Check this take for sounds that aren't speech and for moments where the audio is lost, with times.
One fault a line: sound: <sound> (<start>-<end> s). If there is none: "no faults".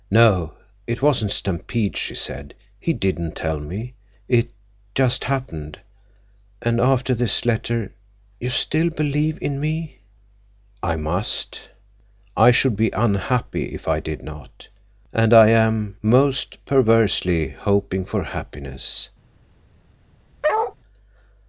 sound: bark (20.4-20.7 s)